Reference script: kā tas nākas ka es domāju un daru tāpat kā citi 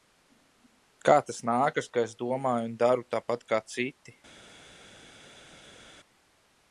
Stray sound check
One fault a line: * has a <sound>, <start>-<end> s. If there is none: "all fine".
all fine